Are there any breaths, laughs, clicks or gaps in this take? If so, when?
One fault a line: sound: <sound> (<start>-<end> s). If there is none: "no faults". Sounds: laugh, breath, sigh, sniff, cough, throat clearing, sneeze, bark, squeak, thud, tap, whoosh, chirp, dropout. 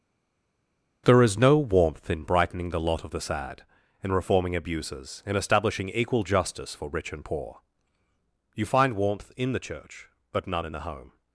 no faults